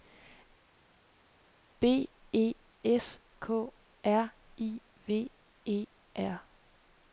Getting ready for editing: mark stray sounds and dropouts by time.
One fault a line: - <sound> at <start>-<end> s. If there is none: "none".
none